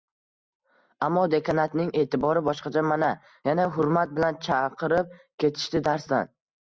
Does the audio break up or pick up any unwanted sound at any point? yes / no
no